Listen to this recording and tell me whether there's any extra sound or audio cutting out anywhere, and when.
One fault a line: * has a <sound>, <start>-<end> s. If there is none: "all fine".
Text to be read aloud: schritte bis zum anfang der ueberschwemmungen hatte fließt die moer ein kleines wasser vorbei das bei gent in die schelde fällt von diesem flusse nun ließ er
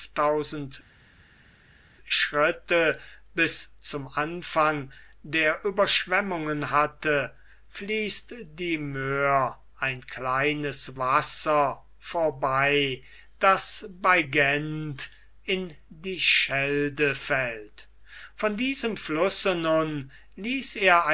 all fine